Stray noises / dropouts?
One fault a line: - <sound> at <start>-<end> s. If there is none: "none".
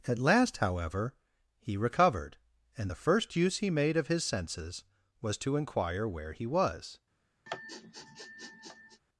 - sniff at 7.5-9.0 s